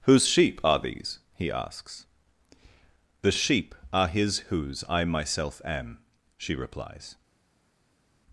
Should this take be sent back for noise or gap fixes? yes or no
no